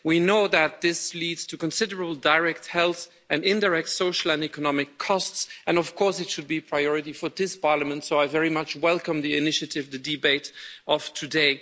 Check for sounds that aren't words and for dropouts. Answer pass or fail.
pass